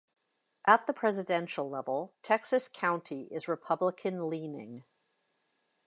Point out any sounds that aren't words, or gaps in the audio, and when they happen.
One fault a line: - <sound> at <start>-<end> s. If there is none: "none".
none